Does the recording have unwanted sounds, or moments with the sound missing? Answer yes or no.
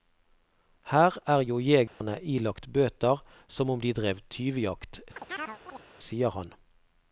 yes